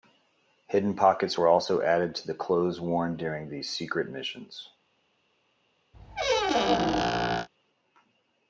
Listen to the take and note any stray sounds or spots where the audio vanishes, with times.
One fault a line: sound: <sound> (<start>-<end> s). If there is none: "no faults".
sound: squeak (5.9-7.5 s)